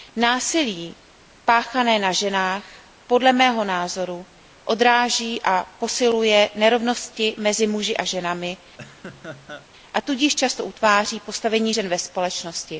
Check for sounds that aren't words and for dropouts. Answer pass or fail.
fail